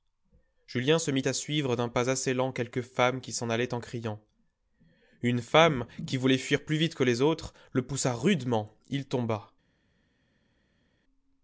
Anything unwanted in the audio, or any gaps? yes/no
no